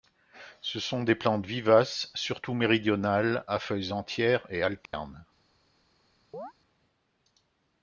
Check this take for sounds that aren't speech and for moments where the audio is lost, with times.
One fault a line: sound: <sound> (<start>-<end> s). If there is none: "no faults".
sound: dropout (4.9-4.9 s)
sound: chirp (6.3-6.5 s)